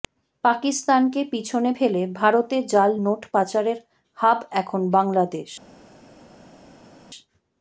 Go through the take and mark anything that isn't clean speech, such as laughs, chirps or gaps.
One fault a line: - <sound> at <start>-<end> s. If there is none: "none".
none